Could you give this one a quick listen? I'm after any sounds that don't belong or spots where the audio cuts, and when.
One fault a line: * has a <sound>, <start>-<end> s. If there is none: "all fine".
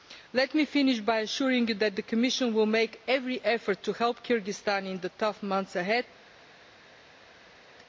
all fine